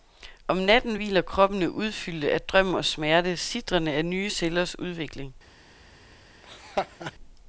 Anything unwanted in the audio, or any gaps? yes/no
yes